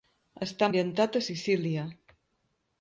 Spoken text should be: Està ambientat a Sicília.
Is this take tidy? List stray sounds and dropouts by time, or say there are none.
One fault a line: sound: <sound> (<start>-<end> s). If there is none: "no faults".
no faults